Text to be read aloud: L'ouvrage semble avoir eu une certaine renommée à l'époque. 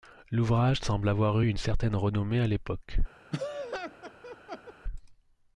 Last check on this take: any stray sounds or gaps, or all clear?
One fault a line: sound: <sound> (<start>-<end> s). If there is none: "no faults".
sound: laugh (3.3-4.7 s)